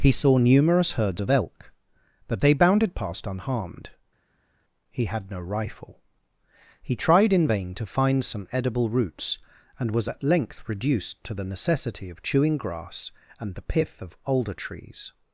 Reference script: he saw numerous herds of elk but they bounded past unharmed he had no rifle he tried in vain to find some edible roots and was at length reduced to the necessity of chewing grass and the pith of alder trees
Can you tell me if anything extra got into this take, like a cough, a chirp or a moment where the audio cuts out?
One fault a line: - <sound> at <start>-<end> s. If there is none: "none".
none